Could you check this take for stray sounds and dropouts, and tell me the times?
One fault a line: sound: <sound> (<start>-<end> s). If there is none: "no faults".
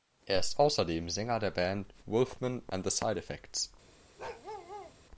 sound: bark (4.2-5.0 s)